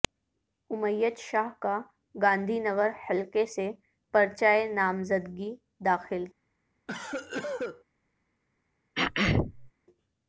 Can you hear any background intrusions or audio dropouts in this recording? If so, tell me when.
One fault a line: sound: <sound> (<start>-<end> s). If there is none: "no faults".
sound: cough (6.9-7.8 s)
sound: throat clearing (9.0-9.7 s)